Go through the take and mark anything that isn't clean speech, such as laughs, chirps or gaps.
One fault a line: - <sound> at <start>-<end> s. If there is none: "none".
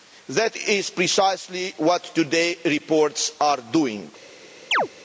- chirp at 4.7-4.9 s